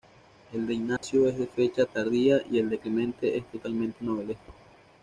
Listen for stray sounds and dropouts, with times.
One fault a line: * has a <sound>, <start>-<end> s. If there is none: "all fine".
* has a dropout, 1.0-1.0 s